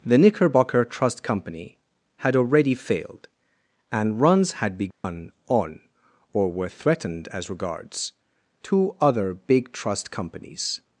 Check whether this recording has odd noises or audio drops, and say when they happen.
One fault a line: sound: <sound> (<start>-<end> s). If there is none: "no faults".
sound: dropout (4.9-5.0 s)